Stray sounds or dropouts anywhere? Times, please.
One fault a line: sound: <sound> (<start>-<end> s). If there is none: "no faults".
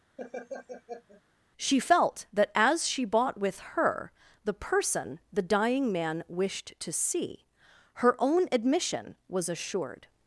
sound: laugh (0.2-1.2 s)